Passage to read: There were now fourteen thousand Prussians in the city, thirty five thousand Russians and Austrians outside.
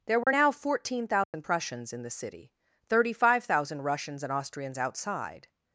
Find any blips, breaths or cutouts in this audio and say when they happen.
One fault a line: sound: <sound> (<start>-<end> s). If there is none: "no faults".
sound: dropout (0.2-0.3 s)
sound: dropout (1.2-1.3 s)